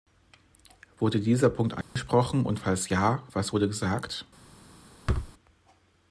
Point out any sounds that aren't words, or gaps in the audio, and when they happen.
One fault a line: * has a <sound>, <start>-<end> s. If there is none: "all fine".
* has a dropout, 1.8-2.0 s
* has a thud, 5.1-5.3 s